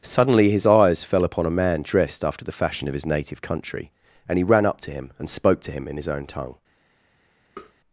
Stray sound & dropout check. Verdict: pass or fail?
fail